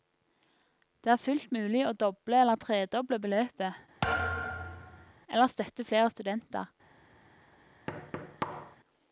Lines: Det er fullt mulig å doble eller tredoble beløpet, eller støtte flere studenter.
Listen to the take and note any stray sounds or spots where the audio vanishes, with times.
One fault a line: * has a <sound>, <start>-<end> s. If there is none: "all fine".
* has a thud, 4.0-5.1 s
* has a thud, 7.9-8.8 s